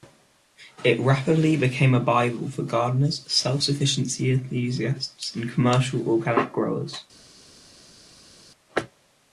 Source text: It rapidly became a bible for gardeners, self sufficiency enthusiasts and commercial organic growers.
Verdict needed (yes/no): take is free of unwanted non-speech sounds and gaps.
yes